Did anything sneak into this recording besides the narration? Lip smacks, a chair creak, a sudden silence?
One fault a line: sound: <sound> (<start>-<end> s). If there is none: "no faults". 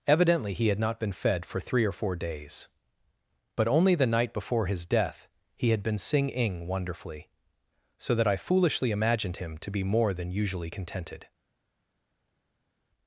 no faults